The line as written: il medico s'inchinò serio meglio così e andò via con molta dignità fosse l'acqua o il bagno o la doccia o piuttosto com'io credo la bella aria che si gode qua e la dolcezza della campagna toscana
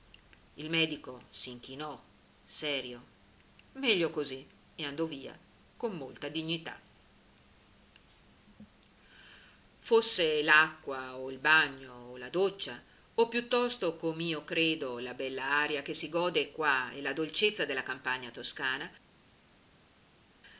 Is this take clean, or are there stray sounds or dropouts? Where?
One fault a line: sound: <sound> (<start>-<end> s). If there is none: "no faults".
no faults